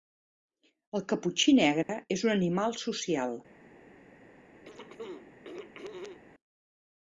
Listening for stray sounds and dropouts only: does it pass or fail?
fail